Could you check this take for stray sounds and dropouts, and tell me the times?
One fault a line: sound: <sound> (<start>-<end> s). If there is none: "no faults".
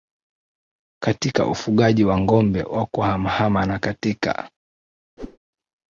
sound: whoosh (5.2-5.4 s)